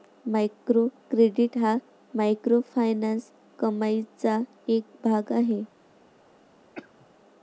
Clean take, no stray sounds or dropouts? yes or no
no